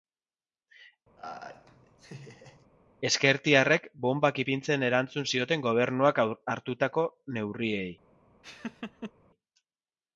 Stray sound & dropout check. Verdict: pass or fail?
fail